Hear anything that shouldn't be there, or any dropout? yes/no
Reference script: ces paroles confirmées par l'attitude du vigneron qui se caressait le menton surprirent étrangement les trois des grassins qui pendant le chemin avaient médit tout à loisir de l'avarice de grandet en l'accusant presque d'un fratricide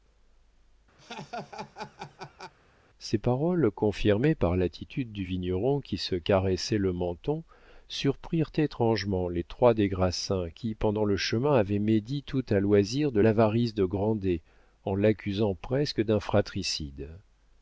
yes